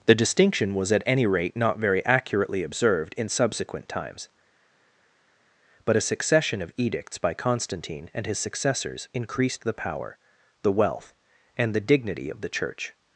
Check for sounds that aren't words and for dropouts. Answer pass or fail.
pass